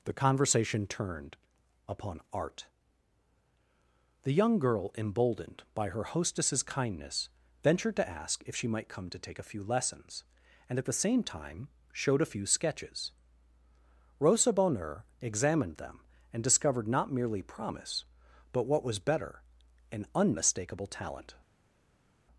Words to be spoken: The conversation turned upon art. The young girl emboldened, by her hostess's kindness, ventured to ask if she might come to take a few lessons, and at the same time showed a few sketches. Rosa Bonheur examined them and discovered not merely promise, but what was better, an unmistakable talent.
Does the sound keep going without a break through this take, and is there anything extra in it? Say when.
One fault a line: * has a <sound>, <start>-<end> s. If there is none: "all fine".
all fine